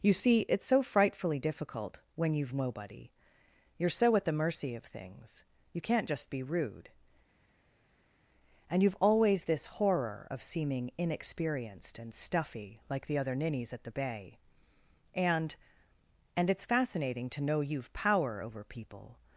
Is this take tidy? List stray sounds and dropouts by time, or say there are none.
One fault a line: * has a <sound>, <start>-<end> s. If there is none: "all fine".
all fine